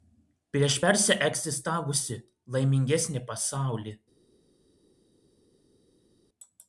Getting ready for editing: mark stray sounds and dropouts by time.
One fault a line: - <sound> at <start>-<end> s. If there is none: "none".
none